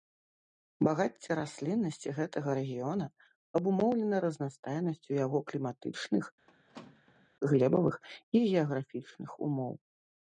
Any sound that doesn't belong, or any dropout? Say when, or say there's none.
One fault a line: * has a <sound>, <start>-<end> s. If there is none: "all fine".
* has a squeak, 6.5-7.3 s